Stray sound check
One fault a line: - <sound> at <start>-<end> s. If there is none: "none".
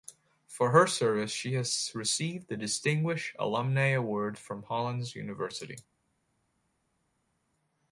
none